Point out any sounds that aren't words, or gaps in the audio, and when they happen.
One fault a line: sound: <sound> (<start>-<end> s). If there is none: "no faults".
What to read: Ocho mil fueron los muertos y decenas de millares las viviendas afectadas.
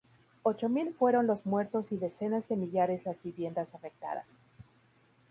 no faults